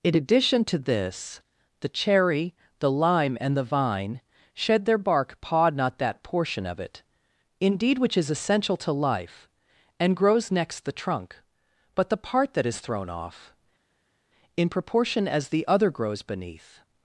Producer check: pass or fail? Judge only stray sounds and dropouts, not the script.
pass